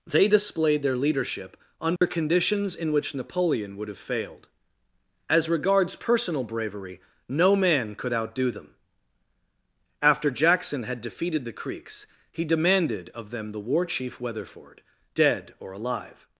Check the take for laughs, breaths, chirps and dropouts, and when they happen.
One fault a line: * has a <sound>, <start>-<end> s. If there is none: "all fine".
* has a dropout, 2.0-2.0 s